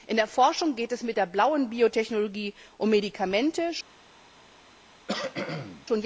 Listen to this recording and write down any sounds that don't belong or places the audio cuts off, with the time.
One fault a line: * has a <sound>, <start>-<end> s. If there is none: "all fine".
* has a cough, 5.1-5.9 s